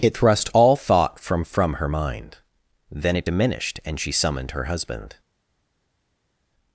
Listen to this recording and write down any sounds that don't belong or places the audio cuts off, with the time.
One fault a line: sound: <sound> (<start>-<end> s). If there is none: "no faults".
no faults